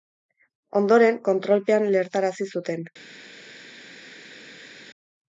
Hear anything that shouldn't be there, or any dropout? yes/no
no